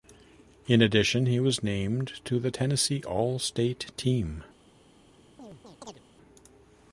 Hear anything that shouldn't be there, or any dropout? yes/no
yes